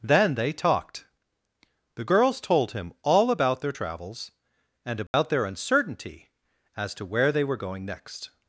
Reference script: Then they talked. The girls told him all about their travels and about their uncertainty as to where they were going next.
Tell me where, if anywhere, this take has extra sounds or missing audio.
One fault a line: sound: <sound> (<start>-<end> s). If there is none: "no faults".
sound: dropout (5.1-5.1 s)